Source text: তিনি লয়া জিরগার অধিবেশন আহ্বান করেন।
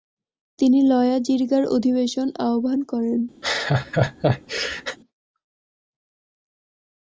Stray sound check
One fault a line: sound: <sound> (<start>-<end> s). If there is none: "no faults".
sound: laugh (3.4-5.0 s)